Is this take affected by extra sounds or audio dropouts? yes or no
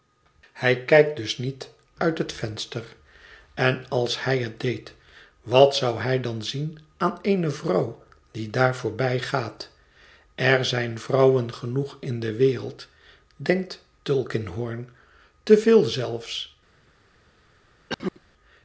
yes